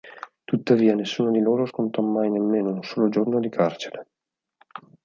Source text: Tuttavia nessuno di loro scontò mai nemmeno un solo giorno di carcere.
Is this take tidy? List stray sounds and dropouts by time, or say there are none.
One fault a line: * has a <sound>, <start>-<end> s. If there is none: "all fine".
all fine